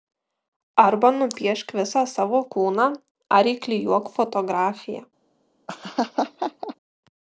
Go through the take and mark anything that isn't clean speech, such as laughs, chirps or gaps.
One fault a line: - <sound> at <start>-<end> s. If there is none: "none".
- laugh at 5.7-6.8 s